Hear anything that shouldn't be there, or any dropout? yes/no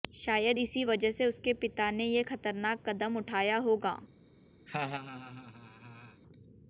yes